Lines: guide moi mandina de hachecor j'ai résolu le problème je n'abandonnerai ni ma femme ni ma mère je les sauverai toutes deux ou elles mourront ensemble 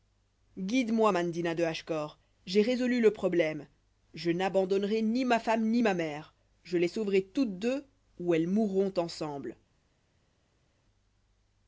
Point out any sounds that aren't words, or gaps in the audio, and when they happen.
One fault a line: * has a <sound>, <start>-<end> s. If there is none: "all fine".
all fine